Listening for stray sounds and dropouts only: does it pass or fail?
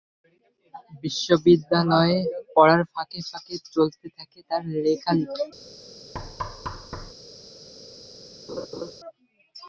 fail